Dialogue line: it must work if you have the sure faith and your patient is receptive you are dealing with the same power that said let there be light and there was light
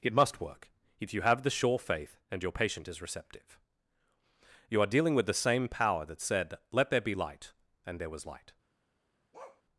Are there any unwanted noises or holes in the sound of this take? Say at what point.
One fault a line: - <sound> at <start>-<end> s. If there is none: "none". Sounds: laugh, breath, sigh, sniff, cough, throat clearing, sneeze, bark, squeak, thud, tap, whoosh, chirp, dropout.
- bark at 9.3-9.6 s